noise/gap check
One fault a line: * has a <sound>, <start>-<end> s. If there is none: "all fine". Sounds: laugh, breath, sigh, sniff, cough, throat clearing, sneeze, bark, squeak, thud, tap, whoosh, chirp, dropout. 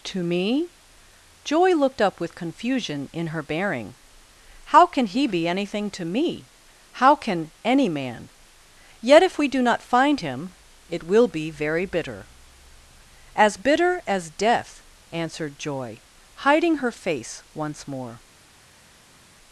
all fine